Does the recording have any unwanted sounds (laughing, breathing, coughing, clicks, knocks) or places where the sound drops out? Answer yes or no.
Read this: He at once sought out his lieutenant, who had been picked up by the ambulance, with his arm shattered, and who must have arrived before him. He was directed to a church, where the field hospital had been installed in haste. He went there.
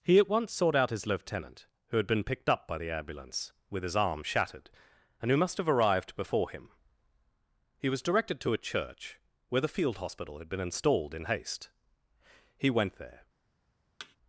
yes